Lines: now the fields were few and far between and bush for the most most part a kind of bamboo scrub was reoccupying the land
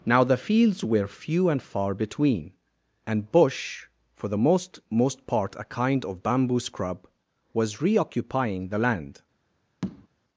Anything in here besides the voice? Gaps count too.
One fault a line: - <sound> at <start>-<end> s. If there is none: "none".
- tap at 9.8-10.1 s